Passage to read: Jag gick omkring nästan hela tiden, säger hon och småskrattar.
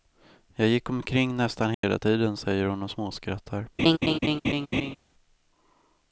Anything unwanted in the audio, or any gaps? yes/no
yes